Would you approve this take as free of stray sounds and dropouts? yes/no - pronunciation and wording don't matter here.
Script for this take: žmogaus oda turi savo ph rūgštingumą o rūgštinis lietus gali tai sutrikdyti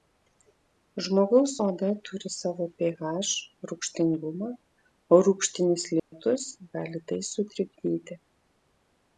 no